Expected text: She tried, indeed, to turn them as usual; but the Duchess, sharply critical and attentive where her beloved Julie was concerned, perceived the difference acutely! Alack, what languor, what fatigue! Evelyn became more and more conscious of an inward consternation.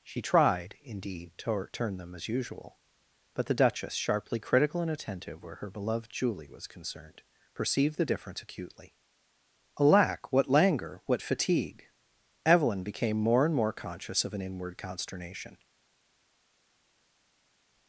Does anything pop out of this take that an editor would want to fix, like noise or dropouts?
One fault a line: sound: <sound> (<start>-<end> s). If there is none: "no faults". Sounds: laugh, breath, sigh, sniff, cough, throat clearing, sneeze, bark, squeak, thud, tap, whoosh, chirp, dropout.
no faults